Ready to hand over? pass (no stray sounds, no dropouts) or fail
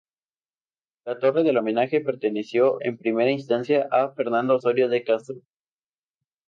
pass